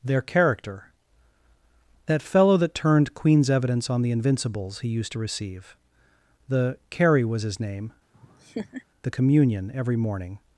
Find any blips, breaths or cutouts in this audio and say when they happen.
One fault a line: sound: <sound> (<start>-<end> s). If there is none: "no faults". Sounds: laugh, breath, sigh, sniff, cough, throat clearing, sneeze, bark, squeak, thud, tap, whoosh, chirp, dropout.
sound: laugh (8.1-8.8 s)